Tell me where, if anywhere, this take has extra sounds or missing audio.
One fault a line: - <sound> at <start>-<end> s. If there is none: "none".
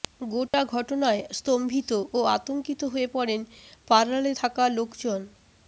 - dropout at 0.5-0.5 s